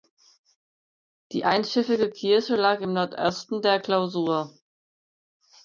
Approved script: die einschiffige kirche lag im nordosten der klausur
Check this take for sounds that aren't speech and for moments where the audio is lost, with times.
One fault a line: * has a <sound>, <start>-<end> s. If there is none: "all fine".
all fine